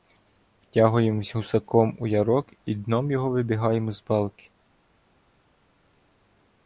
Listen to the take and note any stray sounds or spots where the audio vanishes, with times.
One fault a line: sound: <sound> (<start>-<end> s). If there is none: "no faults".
no faults